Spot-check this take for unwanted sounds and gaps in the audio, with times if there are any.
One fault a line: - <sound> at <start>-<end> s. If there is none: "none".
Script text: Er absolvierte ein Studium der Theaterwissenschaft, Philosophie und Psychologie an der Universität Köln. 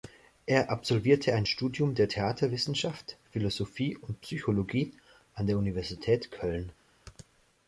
none